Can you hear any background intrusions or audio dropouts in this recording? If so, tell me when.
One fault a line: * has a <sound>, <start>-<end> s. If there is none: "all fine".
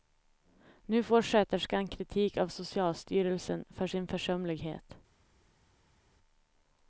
all fine